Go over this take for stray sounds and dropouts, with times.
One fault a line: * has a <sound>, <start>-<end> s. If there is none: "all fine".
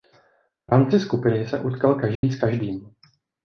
* has a dropout, 2.2-2.2 s